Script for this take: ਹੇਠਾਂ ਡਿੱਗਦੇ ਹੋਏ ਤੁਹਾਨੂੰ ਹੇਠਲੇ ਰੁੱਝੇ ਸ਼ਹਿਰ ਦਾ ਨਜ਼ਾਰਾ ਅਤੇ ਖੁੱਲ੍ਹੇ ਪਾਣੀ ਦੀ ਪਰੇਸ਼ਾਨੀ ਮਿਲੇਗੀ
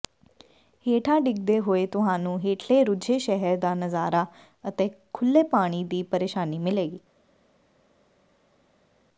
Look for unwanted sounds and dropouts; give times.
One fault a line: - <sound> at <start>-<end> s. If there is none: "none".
none